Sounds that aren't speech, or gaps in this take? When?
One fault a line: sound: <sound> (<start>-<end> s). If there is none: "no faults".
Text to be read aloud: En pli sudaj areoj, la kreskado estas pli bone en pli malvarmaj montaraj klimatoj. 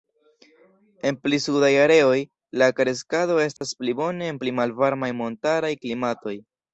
sound: dropout (3.6-3.6 s)